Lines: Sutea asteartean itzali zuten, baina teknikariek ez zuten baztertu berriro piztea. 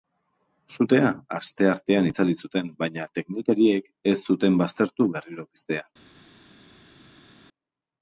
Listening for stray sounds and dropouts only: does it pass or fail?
pass